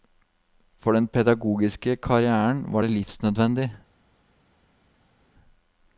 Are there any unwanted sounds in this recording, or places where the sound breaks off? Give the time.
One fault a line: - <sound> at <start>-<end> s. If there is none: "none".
none